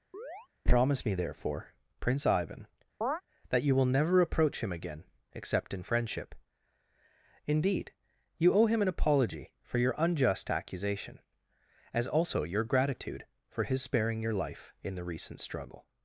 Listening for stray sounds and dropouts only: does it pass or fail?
fail